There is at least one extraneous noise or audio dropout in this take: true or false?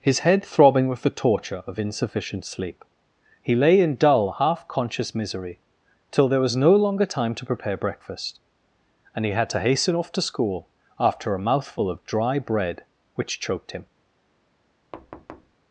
true